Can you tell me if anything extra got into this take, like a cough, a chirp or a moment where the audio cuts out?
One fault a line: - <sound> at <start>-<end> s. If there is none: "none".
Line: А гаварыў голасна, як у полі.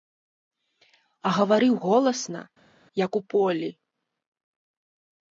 none